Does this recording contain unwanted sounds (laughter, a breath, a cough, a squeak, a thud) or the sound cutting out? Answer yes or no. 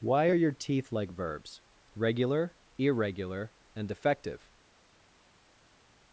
no